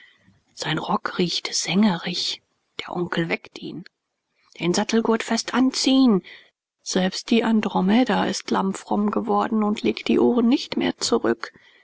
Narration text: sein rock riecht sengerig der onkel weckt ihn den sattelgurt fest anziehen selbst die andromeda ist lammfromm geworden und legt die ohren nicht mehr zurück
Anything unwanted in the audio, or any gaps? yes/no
no